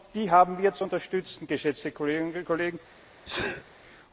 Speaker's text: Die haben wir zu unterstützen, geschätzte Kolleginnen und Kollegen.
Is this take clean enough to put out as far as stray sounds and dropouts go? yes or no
no